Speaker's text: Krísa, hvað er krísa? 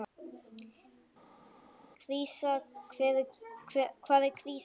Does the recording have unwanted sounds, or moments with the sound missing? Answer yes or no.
no